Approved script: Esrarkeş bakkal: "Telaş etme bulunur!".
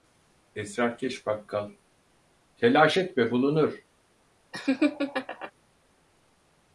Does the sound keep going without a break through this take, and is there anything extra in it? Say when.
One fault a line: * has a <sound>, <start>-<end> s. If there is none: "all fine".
* has a laugh, 4.5-5.5 s